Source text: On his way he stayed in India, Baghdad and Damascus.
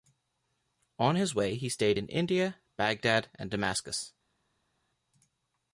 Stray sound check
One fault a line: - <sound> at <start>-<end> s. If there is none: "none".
none